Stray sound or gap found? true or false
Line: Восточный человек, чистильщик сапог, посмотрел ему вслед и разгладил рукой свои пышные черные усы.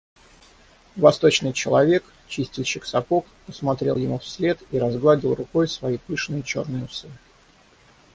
false